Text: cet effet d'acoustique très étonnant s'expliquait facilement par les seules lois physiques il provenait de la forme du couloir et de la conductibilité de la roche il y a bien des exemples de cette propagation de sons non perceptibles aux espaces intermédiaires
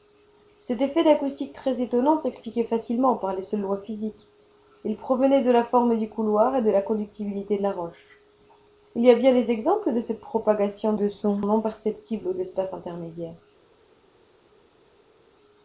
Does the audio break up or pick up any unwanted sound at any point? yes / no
no